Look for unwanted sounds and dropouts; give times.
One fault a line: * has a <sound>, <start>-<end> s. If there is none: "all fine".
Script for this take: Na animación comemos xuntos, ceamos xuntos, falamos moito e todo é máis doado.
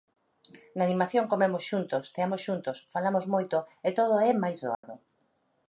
* has a dropout, 4.7-4.8 s